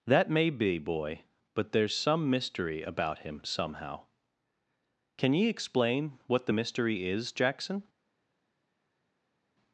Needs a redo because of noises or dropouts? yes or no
no